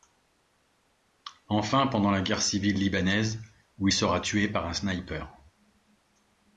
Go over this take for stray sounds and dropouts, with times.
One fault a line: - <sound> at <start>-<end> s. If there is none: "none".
none